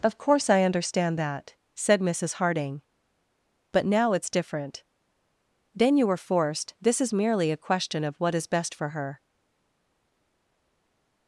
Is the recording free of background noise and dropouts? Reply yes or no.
yes